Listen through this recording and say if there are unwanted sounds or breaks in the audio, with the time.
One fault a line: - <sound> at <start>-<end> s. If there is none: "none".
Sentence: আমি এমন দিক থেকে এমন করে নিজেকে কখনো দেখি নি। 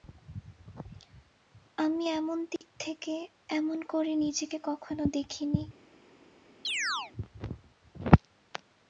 - dropout at 2.6-2.6 s
- chirp at 6.6-7.1 s